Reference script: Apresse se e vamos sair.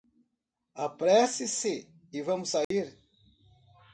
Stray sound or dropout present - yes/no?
yes